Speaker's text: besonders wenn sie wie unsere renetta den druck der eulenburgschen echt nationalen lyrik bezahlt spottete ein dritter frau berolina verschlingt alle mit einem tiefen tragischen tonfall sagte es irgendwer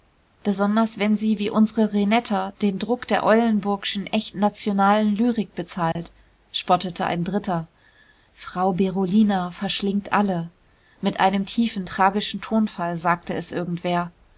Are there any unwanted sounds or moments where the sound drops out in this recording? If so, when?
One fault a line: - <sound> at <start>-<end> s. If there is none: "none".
- dropout at 5.9-6.0 s